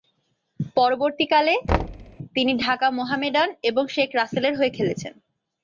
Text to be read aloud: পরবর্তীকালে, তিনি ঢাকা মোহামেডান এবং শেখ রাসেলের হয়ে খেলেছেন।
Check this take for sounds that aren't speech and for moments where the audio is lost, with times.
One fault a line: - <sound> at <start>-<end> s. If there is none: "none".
- thud at 1.7-2.2 s